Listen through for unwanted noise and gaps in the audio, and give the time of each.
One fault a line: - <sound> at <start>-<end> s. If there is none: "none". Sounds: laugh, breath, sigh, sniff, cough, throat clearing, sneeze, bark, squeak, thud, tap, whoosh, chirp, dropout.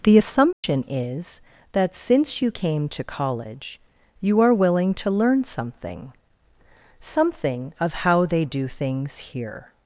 - dropout at 0.5-0.6 s